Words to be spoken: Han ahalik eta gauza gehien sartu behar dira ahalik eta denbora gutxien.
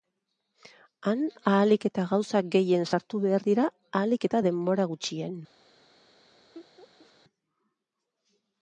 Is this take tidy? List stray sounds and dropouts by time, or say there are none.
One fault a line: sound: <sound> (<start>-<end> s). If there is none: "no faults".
sound: laugh (6.5-7.1 s)